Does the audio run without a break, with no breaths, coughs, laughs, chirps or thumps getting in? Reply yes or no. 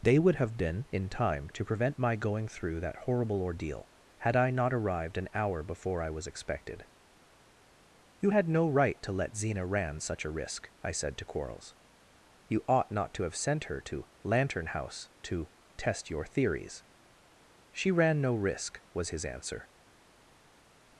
yes